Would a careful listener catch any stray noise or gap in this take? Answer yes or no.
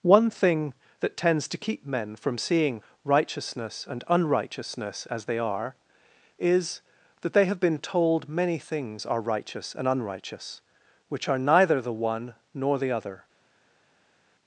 no